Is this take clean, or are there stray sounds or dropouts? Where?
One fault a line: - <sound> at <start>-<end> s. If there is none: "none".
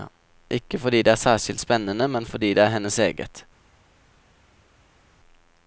none